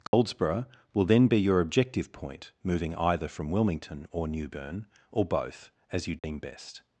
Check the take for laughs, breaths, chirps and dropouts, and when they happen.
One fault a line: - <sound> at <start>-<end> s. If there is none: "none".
- dropout at 0.1-0.1 s
- dropout at 6.2-6.2 s